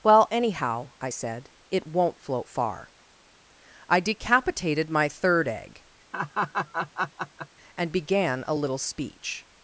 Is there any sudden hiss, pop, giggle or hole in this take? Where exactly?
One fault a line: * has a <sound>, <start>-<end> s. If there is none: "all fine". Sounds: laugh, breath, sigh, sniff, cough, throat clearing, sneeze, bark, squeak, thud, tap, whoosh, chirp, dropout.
* has a laugh, 6.1-7.5 s